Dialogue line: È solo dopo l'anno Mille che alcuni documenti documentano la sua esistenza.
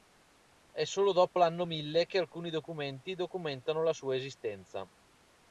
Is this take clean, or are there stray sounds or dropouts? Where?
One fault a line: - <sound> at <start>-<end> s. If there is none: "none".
none